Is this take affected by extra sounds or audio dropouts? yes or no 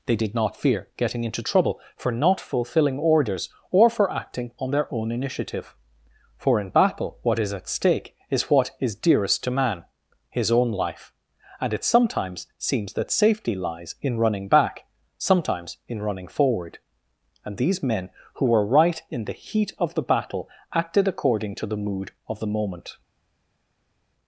no